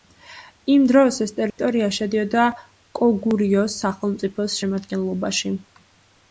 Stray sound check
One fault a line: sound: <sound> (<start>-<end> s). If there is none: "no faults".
sound: dropout (1.5-1.6 s)